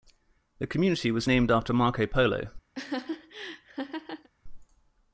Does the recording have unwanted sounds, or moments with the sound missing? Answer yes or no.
yes